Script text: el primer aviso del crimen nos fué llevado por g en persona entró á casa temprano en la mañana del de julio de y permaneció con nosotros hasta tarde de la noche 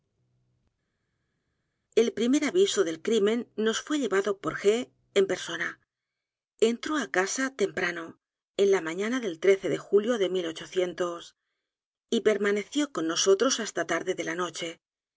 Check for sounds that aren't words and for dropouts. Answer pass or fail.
pass